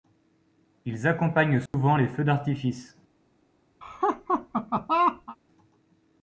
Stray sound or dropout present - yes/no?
yes